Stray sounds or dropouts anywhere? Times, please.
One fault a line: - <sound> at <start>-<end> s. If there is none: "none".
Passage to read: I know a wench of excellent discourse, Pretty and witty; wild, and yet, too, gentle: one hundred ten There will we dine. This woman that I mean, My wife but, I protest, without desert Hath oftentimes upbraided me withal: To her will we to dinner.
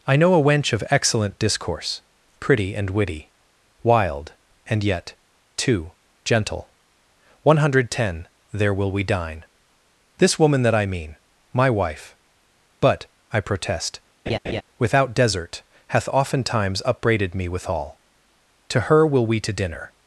- laugh at 14.3-14.6 s